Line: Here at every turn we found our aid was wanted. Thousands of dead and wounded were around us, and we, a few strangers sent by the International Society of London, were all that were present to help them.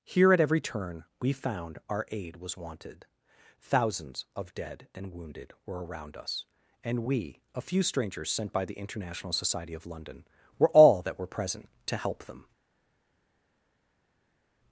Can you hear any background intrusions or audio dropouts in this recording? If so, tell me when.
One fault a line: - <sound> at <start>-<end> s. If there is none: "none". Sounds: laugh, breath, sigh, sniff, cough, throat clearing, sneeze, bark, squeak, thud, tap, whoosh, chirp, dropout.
none